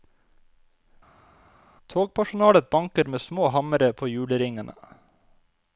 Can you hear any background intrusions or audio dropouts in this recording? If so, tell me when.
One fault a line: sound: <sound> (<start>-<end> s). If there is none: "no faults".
no faults